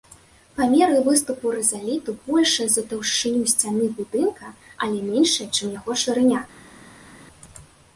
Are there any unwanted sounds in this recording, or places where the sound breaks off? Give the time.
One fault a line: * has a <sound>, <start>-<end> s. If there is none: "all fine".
all fine